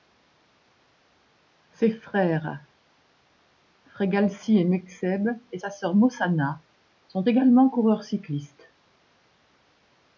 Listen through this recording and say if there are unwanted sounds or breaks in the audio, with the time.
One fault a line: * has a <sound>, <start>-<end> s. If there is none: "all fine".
all fine